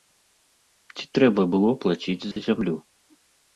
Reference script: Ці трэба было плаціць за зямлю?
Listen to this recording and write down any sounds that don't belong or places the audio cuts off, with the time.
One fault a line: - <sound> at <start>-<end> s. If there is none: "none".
- dropout at 2.3-2.4 s